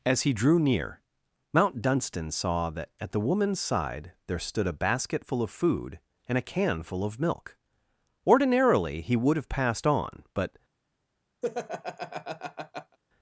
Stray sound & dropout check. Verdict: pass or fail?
fail